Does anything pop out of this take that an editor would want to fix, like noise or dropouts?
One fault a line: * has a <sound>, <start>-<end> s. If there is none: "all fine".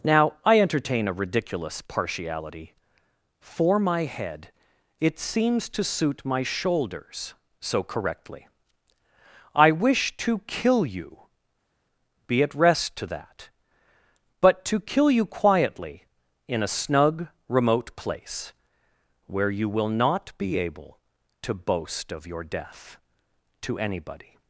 all fine